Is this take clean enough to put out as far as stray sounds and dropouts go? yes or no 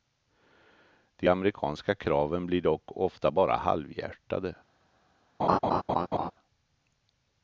no